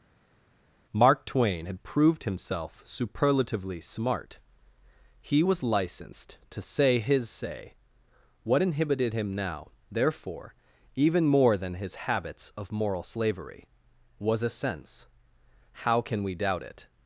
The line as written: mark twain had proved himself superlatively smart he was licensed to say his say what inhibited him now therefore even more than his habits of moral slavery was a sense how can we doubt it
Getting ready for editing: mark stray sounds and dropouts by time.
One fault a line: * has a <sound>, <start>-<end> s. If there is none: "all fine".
all fine